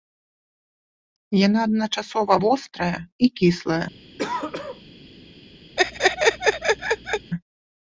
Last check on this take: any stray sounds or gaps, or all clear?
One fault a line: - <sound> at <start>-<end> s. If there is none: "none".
- throat clearing at 4.2-4.9 s
- laugh at 5.8-7.3 s